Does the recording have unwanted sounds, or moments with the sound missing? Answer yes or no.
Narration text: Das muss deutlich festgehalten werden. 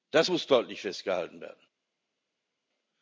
no